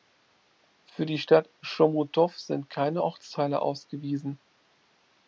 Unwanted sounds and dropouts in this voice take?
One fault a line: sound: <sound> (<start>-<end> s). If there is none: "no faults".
no faults